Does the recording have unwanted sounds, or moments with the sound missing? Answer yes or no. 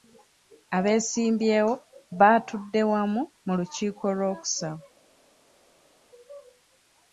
no